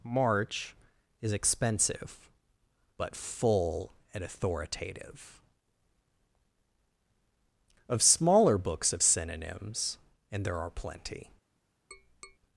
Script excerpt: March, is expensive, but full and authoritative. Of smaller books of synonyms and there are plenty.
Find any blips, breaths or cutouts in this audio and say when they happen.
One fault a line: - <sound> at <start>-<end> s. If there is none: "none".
- tap at 11.9-12.4 s